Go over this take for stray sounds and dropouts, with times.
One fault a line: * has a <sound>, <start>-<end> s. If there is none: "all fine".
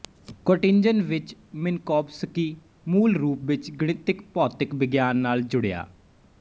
all fine